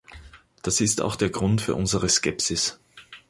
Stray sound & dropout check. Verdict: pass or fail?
pass